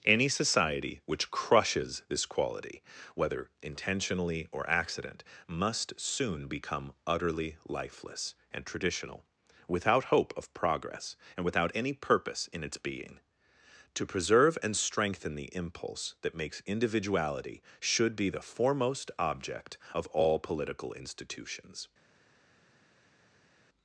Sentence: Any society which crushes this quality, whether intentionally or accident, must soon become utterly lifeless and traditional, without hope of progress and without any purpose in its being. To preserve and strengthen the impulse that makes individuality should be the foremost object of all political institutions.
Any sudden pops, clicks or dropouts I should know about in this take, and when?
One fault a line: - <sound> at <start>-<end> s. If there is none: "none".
none